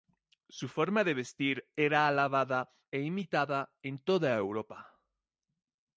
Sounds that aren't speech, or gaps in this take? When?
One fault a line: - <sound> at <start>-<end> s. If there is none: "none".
none